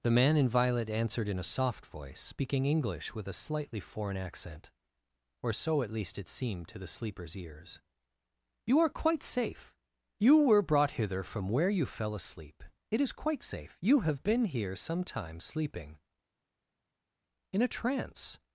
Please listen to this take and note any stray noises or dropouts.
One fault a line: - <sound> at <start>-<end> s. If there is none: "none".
none